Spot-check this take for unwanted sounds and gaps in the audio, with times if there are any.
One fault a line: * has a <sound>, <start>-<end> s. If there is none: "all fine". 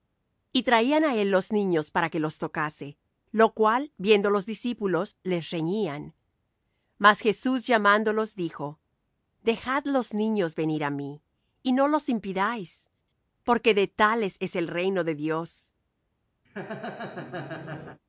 * has a laugh, 16.4-18.0 s